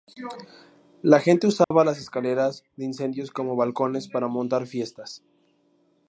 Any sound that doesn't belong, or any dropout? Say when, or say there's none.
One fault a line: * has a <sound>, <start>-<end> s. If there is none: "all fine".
* has a dropout, 1.6-1.7 s